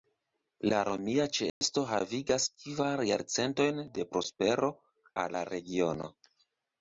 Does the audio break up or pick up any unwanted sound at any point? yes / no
yes